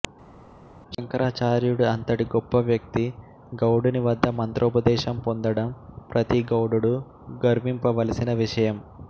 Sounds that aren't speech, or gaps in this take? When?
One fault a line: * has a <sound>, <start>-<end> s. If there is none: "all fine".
all fine